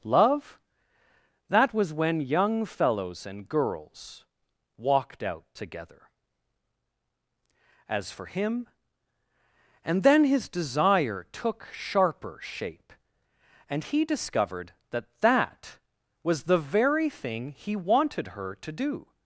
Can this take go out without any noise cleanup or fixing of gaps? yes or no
yes